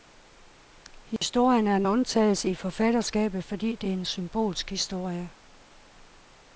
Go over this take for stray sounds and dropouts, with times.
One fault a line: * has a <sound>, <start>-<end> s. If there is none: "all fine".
* has a dropout, 1.2-1.2 s